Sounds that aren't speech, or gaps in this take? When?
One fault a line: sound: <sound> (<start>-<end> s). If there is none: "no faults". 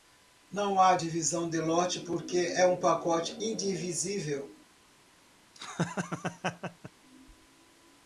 sound: laugh (5.5-6.9 s)